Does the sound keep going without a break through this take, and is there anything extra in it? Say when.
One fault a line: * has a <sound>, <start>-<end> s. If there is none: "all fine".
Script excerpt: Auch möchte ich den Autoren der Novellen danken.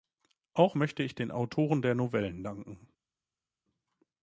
all fine